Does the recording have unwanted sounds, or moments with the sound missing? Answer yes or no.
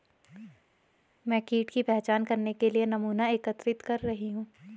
no